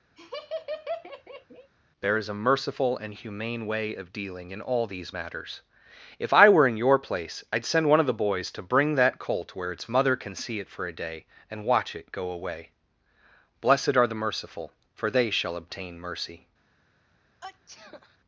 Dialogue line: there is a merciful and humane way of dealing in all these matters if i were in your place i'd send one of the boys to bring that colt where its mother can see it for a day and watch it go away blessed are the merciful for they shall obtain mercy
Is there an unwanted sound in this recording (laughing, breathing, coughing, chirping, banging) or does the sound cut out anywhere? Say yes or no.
yes